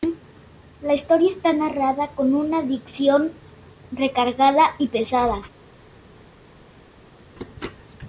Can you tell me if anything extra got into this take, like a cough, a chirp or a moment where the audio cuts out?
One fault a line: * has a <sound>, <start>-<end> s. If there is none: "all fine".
all fine